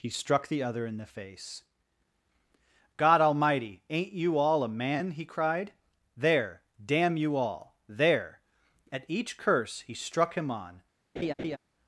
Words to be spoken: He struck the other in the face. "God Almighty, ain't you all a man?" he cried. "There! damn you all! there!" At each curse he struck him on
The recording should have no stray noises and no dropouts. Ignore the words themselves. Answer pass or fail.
fail